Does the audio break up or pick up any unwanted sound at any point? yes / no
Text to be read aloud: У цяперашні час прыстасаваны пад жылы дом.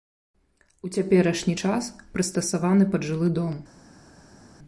no